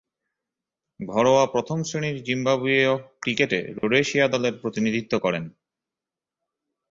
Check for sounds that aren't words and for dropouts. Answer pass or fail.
fail